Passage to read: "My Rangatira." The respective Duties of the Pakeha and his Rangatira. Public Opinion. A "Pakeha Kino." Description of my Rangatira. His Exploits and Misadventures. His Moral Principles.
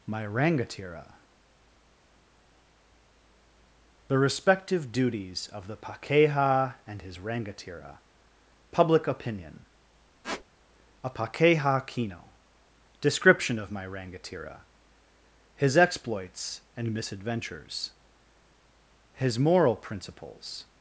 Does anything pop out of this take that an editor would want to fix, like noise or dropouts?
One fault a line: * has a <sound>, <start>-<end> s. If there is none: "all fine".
* has a squeak, 10.2-10.4 s